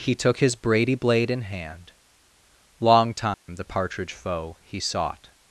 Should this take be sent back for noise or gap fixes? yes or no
yes